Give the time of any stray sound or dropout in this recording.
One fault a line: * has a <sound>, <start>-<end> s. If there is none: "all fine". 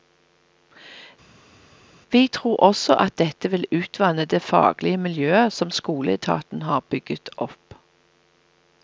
all fine